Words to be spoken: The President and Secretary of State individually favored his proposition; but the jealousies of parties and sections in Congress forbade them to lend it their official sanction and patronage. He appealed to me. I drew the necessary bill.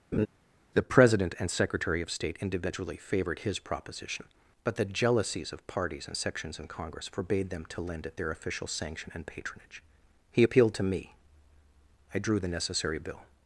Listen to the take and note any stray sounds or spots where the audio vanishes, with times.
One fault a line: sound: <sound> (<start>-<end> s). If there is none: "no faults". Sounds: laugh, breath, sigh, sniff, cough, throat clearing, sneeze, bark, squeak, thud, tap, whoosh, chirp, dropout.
sound: laugh (0.1-0.3 s)